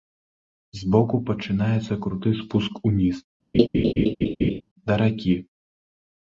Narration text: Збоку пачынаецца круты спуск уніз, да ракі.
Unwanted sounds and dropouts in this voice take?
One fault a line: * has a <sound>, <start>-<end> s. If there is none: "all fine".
* has a laugh, 3.5-4.6 s